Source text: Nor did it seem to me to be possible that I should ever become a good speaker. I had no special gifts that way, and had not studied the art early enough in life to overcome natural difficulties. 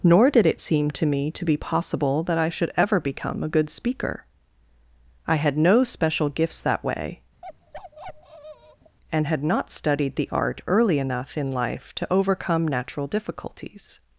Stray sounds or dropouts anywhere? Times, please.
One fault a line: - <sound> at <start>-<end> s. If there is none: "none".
- bark at 7.4-9.0 s